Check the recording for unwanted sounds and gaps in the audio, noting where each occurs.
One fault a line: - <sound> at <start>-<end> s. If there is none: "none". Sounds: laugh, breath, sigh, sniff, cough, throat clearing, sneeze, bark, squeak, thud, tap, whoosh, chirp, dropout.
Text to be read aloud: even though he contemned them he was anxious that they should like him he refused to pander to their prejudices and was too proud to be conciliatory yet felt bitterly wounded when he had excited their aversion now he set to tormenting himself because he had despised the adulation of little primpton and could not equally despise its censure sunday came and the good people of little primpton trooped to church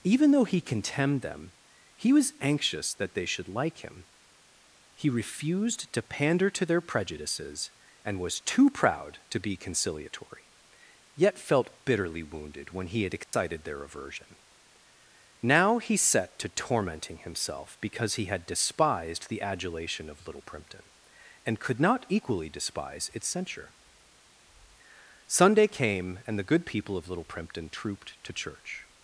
- dropout at 13.2-13.3 s